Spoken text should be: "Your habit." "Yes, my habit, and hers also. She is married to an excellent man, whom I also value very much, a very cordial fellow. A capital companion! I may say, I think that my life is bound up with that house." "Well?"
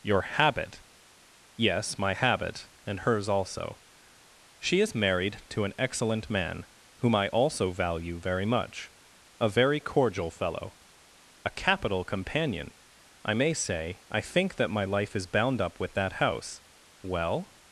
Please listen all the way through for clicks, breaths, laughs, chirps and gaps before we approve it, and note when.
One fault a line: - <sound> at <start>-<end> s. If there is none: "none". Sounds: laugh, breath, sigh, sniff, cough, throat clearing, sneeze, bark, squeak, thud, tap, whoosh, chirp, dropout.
none